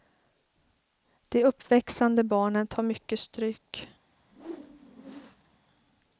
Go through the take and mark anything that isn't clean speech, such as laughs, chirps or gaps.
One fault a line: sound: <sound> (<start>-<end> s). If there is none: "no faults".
sound: whoosh (4.2-5.6 s)